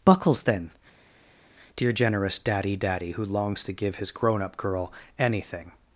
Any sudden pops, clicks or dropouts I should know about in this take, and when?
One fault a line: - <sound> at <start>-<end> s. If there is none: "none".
none